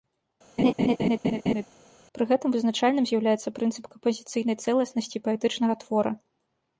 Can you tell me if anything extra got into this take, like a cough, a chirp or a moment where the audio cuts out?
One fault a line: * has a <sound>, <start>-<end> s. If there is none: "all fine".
* has a laugh, 0.6-1.7 s